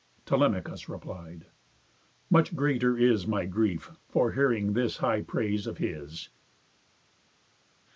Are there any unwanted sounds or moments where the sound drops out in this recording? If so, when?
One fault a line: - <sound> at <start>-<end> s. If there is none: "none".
none